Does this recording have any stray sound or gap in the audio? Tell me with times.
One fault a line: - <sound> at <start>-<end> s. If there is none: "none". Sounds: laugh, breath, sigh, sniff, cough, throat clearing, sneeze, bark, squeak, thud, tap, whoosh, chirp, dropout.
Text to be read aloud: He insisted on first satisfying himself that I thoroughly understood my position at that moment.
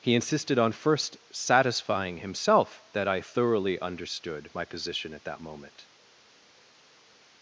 none